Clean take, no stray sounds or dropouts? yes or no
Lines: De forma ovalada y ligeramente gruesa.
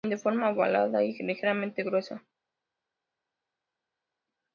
yes